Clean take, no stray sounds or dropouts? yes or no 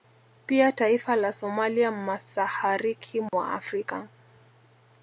no